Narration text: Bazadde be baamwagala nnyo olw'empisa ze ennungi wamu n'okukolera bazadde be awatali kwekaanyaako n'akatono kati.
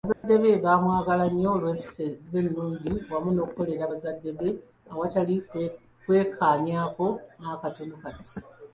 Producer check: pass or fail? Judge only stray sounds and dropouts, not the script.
fail